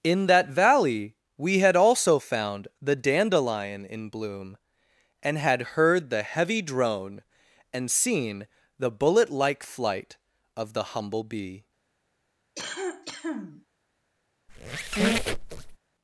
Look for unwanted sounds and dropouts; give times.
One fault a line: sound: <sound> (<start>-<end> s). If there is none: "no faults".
sound: cough (12.6-13.7 s)
sound: squeak (14.5-15.8 s)